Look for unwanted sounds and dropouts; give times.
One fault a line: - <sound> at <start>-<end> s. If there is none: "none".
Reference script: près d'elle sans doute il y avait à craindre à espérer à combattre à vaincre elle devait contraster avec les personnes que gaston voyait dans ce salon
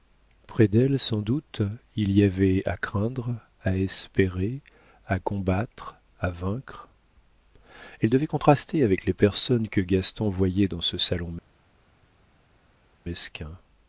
none